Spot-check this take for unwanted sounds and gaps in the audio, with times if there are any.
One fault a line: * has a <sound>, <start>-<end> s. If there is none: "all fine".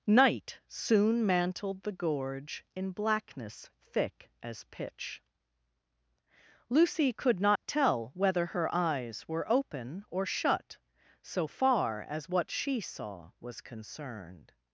* has a dropout, 7.6-7.6 s